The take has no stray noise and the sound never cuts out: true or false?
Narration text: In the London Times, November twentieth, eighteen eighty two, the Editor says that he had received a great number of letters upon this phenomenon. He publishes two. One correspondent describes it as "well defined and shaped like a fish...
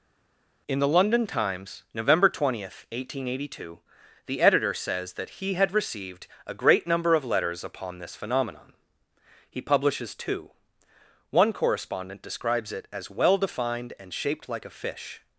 true